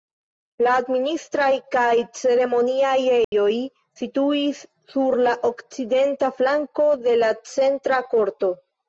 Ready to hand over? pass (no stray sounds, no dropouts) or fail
fail